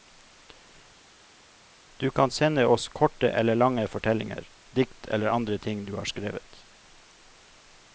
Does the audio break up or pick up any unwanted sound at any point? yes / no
no